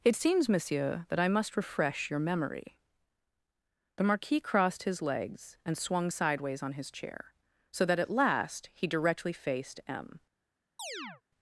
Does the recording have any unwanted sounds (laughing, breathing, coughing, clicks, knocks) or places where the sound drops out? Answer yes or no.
yes